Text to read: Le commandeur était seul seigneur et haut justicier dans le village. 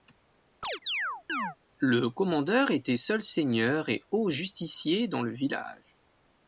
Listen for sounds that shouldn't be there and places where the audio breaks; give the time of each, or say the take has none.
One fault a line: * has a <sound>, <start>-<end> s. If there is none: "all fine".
* has a chirp, 0.6-1.6 s